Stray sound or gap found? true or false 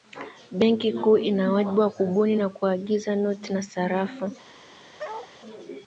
true